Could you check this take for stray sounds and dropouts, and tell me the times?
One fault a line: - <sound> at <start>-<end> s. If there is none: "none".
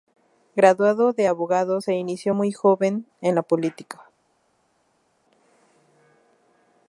none